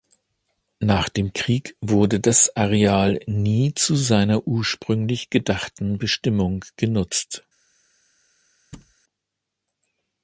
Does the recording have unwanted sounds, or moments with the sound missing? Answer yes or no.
yes